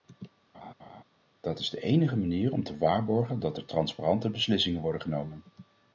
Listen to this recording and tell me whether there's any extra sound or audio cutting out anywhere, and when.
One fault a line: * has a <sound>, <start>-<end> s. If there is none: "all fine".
* has a laugh, 0.5-1.0 s